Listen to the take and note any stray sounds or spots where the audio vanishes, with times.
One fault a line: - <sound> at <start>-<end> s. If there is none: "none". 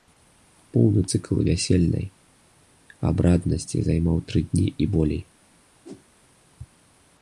- whoosh at 5.8-6.1 s